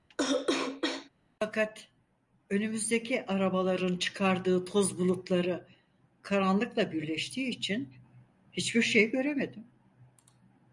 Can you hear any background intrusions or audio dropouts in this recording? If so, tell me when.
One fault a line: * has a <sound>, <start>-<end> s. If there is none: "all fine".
* has a cough, 0.1-1.1 s